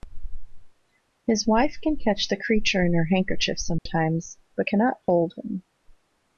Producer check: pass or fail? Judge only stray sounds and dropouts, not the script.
fail